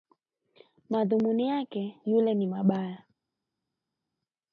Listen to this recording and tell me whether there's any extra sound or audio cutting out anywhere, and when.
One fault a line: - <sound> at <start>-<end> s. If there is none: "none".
none